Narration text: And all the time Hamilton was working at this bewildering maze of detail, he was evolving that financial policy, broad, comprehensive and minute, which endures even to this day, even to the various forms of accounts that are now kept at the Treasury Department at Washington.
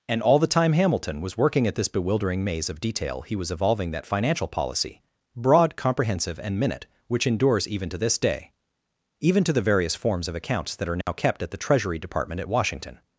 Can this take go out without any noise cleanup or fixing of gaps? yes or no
no